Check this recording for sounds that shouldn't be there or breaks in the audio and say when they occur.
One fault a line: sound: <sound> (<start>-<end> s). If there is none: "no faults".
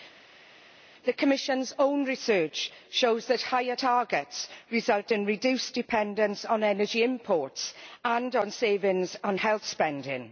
no faults